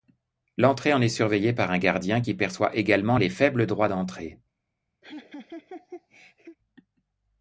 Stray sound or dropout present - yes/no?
yes